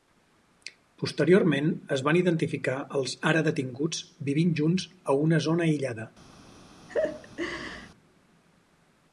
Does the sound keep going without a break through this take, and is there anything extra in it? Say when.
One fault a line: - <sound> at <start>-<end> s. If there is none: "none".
- laugh at 6.9-7.9 s